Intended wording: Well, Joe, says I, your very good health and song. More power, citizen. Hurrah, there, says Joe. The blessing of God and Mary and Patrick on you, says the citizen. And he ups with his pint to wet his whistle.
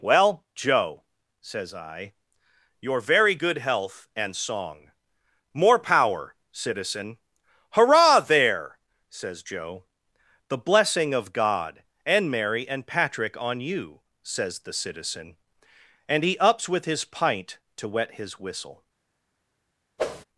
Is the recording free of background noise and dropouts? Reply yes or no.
no